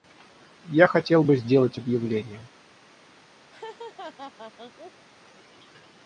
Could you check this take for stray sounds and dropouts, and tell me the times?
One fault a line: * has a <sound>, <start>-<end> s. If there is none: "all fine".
* has a laugh, 3.5-5.1 s